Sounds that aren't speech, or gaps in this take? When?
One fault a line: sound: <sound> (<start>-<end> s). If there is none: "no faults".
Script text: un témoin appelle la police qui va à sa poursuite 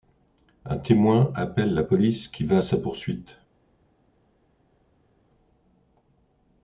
no faults